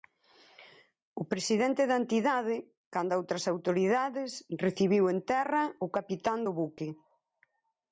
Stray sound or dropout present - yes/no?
no